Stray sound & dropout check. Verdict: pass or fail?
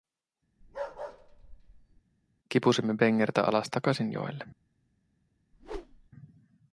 fail